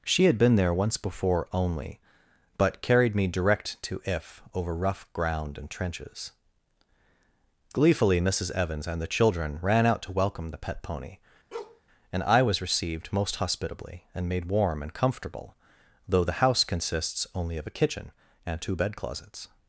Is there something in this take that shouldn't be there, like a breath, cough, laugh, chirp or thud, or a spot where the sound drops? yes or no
yes